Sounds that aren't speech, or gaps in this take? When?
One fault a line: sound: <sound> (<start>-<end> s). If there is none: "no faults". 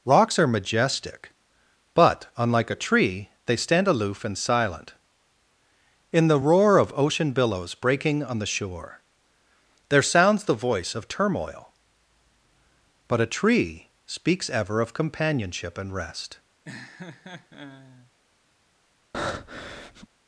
sound: laugh (16.6-18.1 s)
sound: breath (19.1-20.1 s)